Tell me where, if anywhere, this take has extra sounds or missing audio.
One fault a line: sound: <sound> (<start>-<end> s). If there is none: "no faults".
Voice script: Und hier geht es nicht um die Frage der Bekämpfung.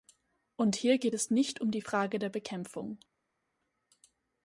no faults